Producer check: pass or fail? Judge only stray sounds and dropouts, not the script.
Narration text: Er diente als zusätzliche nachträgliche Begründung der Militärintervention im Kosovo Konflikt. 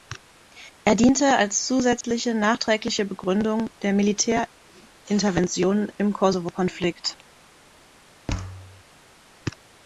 fail